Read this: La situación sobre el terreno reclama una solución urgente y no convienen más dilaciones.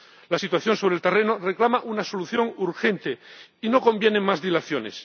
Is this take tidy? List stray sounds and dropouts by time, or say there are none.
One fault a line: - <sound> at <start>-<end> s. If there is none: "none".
none